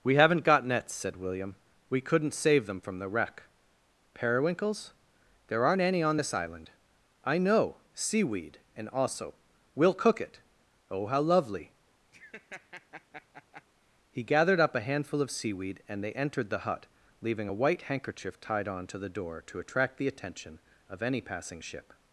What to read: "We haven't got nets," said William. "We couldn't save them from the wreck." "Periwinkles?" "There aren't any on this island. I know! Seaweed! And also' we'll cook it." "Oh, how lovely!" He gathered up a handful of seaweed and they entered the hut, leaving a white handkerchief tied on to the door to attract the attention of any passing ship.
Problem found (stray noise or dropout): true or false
true